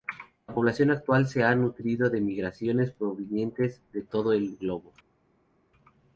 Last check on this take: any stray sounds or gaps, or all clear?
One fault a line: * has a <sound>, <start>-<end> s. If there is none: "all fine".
all fine